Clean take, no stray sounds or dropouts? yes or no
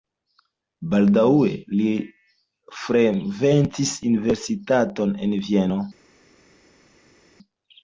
yes